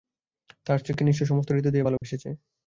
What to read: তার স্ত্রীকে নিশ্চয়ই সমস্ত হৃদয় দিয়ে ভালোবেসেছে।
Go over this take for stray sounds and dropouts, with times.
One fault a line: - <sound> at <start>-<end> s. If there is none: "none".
- dropout at 2.0-2.0 s